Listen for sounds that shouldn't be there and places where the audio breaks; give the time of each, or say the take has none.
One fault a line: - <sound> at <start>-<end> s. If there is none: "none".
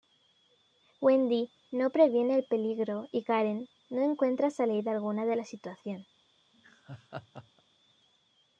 - laugh at 6.5-7.6 s